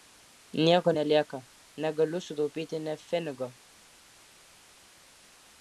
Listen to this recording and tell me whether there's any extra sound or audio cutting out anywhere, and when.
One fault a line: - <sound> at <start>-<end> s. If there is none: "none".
none